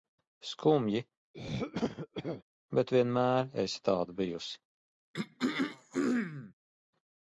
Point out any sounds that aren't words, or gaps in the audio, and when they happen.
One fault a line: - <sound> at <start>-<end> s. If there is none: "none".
- throat clearing at 1.3-2.4 s
- throat clearing at 5.1-6.5 s